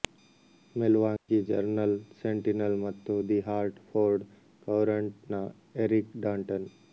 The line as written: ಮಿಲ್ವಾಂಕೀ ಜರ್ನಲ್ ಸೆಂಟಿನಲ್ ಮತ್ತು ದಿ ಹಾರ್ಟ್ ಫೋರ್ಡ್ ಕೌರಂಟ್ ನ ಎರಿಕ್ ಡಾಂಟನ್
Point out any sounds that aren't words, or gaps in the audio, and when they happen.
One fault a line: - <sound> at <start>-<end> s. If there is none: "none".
- dropout at 1.2-1.3 s